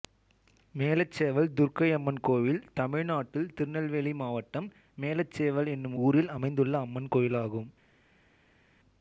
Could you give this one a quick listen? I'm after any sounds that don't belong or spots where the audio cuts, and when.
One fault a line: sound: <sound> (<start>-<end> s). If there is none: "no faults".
no faults